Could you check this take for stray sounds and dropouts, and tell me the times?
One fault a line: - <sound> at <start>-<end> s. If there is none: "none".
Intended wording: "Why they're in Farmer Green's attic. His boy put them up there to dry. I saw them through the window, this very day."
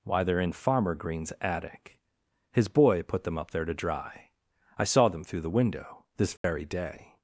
- dropout at 6.4-6.4 s